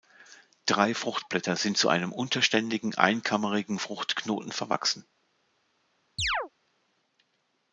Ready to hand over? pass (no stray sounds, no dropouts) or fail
fail